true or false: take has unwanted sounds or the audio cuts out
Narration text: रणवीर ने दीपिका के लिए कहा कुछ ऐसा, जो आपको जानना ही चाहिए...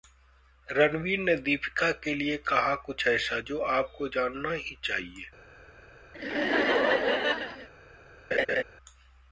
true